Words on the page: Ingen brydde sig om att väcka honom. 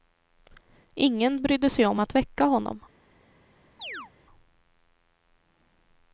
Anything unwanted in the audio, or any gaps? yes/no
yes